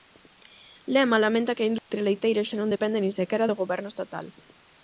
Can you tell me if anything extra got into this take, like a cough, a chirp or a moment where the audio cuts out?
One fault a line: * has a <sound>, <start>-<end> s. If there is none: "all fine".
* has a dropout, 1.8-1.9 s